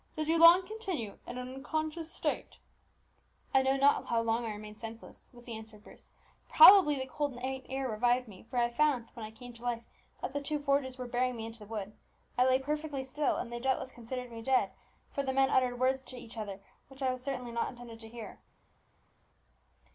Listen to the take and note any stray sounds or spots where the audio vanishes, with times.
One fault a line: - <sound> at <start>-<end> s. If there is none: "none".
none